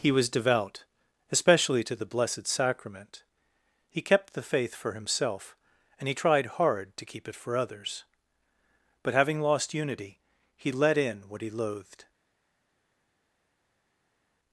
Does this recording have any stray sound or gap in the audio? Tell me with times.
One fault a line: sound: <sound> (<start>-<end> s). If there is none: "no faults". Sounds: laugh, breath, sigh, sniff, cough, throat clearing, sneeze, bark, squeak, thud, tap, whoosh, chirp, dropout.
no faults